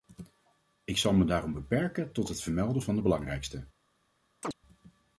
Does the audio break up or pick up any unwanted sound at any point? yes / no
yes